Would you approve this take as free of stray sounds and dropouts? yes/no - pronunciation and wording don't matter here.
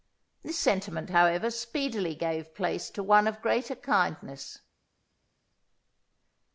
yes